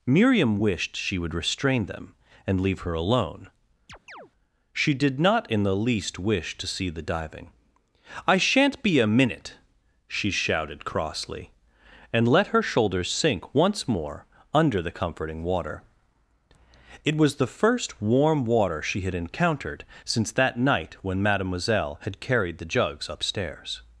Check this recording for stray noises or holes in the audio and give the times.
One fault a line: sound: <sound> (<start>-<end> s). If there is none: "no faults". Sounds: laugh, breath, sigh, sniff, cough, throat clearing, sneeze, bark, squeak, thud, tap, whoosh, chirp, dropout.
sound: chirp (3.9-4.3 s)